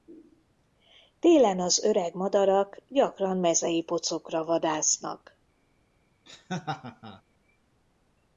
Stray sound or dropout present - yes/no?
yes